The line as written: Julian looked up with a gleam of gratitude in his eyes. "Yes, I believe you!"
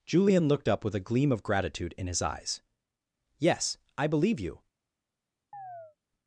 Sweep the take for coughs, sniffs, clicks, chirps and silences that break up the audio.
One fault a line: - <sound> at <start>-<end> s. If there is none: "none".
- chirp at 5.5-6.0 s